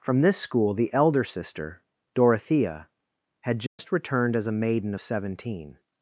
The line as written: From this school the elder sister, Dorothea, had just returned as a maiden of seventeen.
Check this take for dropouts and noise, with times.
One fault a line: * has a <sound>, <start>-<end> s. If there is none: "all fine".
* has a dropout, 3.7-3.8 s